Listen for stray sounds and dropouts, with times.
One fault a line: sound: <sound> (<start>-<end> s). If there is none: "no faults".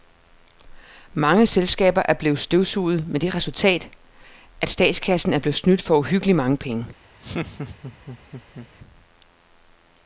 sound: laugh (7.2-8.7 s)